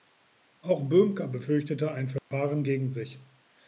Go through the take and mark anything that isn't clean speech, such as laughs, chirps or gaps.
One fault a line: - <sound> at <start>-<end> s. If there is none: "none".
- dropout at 2.2-2.3 s